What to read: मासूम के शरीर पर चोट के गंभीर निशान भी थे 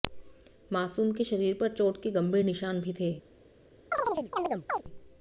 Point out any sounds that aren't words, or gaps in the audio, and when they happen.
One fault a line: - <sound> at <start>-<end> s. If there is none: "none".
- chirp at 3.9-4.8 s